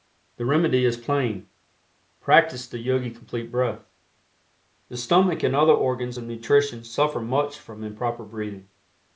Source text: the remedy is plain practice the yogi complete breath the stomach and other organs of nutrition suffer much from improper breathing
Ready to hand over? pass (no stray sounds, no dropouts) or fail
pass